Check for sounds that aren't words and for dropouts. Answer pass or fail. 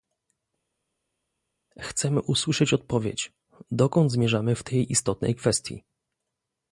pass